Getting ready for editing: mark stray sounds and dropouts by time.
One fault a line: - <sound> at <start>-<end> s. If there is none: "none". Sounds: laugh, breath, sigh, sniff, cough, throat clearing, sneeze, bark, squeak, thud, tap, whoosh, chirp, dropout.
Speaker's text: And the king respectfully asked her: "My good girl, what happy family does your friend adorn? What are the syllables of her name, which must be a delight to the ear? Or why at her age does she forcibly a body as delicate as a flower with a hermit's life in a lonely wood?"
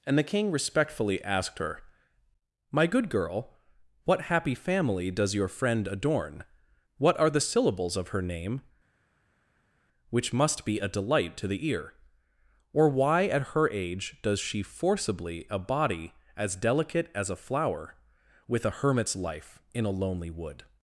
none